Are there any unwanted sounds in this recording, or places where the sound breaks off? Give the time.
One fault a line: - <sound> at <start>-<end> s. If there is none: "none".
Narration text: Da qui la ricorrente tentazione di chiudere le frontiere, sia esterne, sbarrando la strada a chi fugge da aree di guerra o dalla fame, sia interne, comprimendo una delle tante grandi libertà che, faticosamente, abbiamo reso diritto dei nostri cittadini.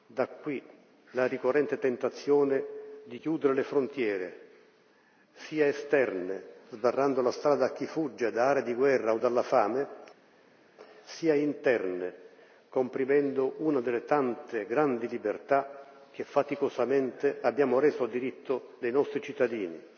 none